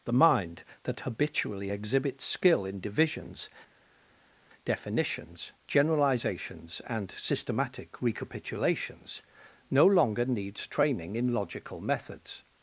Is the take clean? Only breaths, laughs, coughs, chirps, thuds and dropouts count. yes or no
yes